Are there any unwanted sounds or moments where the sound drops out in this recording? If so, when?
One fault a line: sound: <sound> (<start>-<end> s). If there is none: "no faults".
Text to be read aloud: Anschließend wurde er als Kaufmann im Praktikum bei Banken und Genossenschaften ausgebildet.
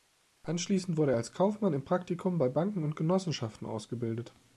no faults